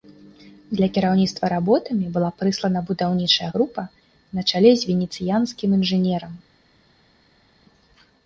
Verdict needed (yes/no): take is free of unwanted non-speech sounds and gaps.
yes